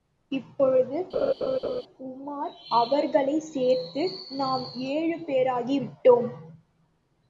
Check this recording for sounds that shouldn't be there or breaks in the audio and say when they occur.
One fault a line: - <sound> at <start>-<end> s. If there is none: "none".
- laugh at 1.1-1.8 s